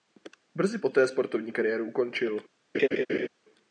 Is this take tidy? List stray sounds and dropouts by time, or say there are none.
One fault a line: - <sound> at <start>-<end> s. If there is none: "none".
- laugh at 2.7-3.3 s